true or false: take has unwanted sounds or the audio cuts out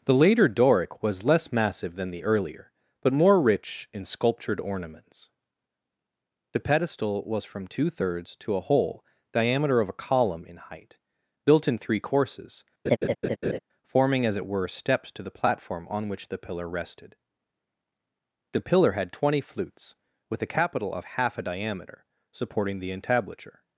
true